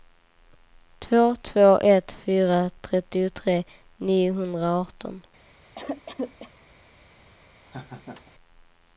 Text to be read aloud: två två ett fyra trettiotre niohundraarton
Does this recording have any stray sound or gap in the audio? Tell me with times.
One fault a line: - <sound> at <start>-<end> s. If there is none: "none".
- cough at 5.7-6.5 s
- laugh at 7.6-8.3 s